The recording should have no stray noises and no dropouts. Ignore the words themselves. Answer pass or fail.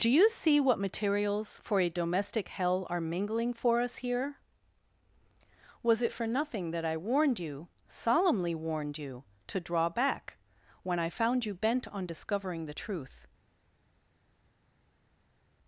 pass